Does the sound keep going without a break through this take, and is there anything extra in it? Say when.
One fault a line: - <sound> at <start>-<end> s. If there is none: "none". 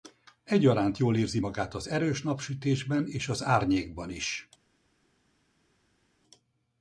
none